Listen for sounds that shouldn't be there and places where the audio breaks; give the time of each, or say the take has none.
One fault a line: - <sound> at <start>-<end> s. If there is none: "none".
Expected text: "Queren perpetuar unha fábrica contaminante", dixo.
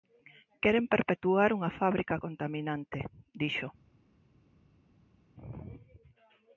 none